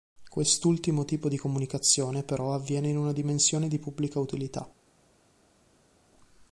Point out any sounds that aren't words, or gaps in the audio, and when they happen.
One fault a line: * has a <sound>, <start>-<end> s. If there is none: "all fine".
all fine